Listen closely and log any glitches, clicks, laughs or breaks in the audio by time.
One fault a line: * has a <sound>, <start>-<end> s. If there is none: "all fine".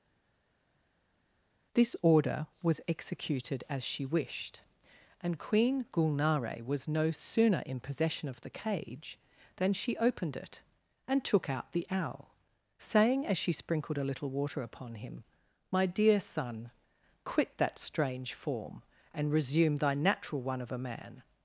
all fine